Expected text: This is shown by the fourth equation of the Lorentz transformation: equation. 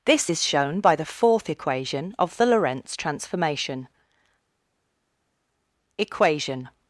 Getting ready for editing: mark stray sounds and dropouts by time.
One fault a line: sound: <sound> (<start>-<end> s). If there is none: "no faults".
no faults